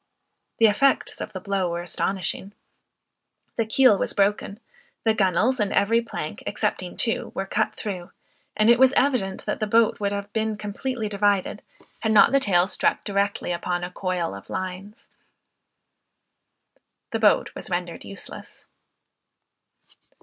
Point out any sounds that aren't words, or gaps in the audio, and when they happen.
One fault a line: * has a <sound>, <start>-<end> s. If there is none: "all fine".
all fine